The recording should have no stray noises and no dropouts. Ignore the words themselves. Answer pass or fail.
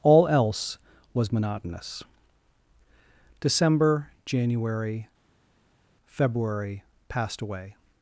pass